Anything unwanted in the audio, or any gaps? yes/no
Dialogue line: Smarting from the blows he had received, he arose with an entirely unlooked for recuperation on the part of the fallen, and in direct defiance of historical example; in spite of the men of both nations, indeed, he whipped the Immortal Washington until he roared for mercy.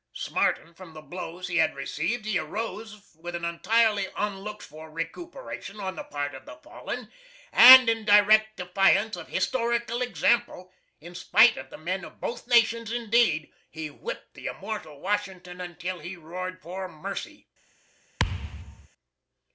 yes